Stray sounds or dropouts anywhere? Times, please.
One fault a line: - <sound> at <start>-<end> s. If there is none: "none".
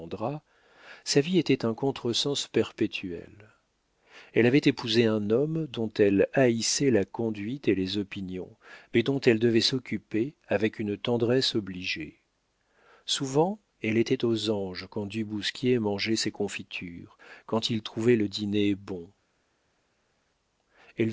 none